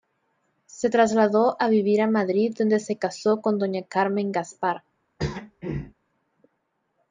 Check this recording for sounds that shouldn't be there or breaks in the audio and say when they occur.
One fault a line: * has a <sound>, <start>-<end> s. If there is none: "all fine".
* has a throat clearing, 5.2-5.9 s